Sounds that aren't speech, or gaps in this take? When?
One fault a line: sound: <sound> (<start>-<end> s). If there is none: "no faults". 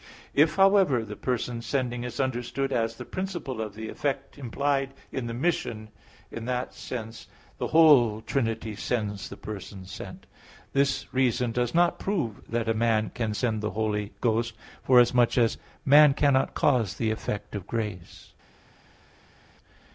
no faults